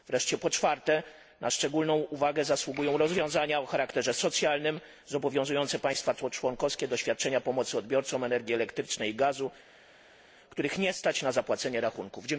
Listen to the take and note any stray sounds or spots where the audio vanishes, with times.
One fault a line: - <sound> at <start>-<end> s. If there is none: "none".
none